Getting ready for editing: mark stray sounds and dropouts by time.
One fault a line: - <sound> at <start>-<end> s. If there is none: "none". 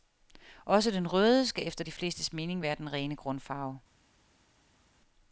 none